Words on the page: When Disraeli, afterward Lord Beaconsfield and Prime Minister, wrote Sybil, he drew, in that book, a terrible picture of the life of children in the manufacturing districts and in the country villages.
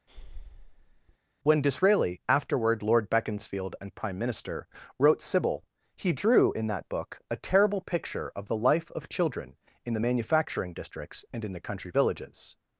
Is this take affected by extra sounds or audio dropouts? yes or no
yes